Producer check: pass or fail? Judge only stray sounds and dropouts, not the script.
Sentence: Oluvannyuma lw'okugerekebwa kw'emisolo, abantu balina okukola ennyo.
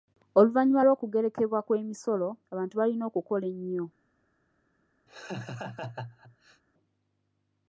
fail